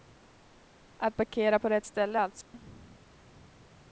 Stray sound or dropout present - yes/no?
yes